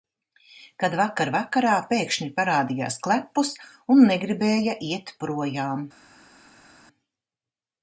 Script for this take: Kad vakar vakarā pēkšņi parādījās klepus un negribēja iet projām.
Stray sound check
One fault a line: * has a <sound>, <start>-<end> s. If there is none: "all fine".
all fine